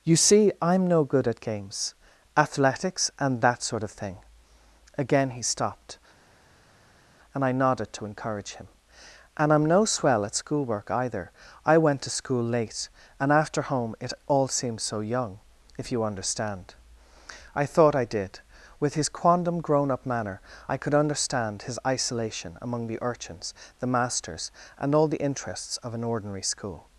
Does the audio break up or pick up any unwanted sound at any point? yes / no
no